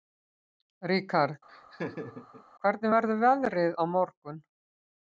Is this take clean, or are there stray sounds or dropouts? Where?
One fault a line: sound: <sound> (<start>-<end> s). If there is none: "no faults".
sound: laugh (1.5-2.4 s)